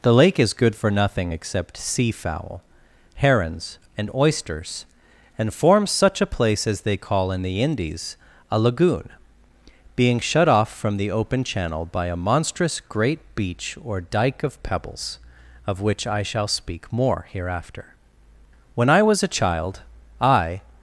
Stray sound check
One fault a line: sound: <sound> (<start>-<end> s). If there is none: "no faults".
no faults